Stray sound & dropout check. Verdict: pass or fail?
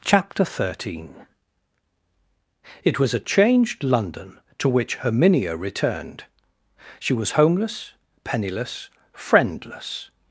pass